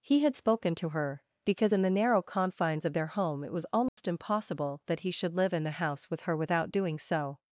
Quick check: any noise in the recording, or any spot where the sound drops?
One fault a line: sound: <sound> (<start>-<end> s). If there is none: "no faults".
sound: dropout (3.9-4.0 s)